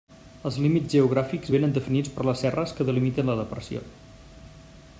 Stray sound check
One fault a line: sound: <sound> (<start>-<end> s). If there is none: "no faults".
no faults